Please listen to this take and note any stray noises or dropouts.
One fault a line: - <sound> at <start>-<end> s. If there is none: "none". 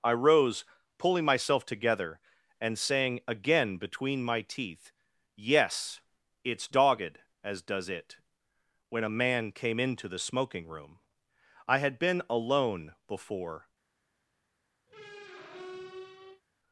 - squeak at 14.9-16.4 s